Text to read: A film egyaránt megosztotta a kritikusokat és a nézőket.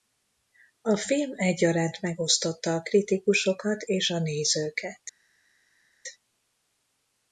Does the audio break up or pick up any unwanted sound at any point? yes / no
no